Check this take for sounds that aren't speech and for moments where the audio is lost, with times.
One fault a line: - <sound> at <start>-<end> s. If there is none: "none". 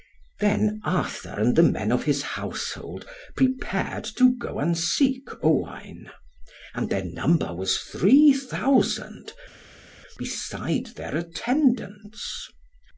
none